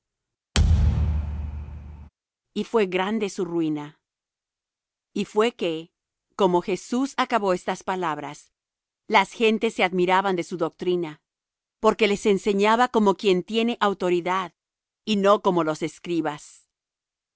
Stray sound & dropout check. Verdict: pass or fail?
fail